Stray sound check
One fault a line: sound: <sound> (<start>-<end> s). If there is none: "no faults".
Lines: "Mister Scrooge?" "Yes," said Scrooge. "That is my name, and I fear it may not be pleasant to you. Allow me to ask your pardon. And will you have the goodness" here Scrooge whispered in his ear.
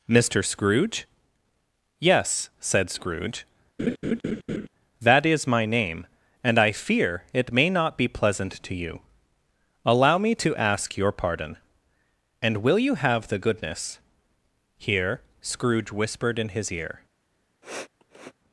sound: laugh (3.8-4.7 s)
sound: sniff (17.6-18.3 s)